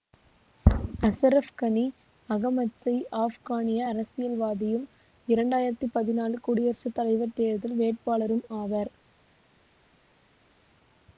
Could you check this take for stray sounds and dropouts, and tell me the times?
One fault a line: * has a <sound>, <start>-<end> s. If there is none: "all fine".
all fine